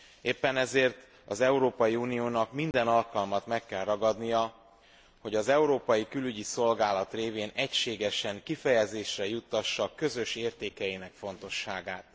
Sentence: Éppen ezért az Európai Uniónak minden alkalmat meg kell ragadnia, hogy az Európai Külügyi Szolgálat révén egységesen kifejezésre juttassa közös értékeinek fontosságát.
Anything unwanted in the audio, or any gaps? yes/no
yes